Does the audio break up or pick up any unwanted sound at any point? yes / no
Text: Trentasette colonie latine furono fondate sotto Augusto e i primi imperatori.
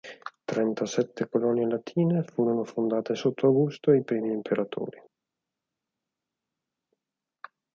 no